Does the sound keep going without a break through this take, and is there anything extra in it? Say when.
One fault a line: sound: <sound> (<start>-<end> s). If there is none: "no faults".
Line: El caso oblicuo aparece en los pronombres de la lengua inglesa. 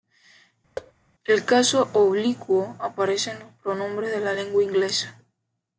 sound: thud (0.8-0.9 s)